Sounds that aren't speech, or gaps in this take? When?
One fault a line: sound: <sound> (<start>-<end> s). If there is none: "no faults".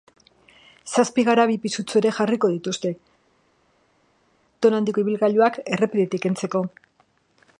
no faults